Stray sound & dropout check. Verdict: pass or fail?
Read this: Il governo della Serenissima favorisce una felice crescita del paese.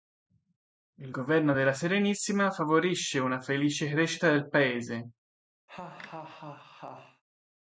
fail